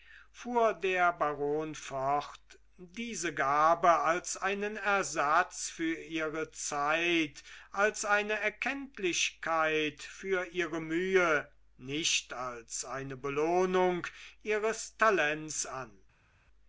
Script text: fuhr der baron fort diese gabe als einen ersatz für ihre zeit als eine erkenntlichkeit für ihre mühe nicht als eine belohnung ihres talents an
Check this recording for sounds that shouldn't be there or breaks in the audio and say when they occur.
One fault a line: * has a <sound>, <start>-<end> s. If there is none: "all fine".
all fine